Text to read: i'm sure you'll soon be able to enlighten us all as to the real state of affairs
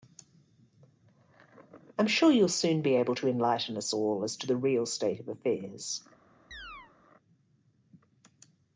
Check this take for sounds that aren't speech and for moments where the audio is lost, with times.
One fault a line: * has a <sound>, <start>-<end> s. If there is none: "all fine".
* has a chirp, 6.5-6.9 s